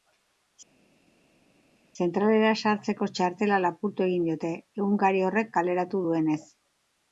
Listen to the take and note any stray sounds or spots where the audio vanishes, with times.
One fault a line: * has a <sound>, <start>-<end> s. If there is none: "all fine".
all fine